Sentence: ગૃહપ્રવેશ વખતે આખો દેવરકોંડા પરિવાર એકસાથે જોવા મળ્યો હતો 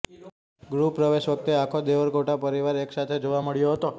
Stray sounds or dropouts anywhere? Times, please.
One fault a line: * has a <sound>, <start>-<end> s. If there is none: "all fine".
all fine